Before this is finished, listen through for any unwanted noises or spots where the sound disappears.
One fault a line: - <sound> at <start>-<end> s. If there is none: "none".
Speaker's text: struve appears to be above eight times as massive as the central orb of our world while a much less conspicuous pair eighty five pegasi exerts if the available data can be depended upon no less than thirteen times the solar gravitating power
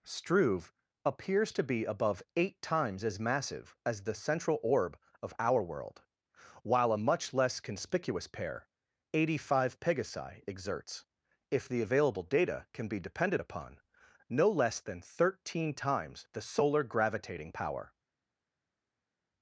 none